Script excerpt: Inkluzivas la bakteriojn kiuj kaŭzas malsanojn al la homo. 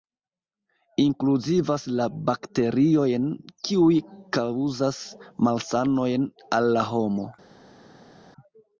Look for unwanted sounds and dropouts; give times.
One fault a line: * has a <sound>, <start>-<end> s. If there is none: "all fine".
all fine